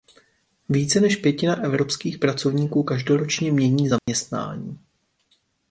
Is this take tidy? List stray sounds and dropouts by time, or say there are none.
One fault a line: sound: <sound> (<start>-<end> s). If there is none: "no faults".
sound: dropout (4.0-4.1 s)